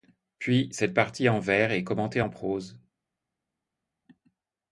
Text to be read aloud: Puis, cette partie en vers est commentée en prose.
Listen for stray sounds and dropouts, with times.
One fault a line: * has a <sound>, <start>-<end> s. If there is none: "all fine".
all fine